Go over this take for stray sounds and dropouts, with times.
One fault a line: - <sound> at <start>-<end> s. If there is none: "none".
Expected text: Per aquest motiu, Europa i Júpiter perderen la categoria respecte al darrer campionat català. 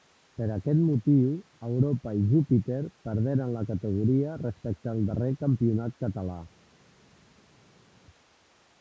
none